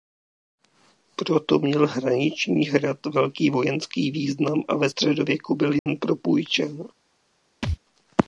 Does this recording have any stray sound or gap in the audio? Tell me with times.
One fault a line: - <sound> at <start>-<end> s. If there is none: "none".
- dropout at 5.8-5.9 s
- thud at 7.6-7.8 s